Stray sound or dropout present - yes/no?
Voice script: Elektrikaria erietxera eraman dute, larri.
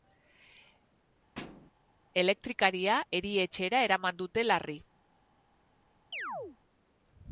yes